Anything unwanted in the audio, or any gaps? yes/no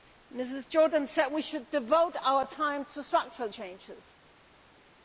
no